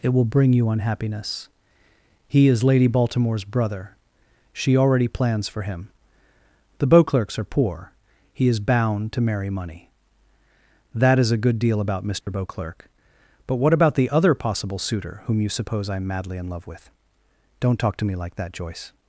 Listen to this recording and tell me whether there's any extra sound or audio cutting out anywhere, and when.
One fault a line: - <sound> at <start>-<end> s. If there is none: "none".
- dropout at 12.2-12.3 s